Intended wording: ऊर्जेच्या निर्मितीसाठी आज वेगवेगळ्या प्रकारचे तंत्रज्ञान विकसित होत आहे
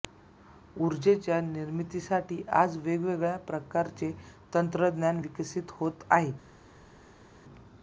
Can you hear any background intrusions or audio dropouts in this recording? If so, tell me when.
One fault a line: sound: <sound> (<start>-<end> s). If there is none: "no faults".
no faults